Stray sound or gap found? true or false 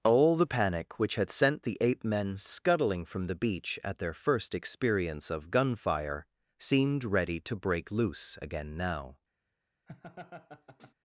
true